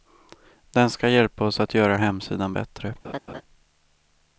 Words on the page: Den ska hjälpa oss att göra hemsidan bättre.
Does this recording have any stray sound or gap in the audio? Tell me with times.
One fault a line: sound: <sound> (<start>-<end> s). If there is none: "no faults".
sound: laugh (3.0-3.4 s)